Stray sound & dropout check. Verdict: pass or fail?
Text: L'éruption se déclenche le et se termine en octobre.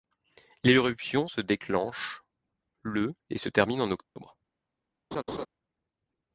fail